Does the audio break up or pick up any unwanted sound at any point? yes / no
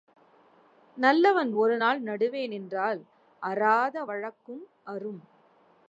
no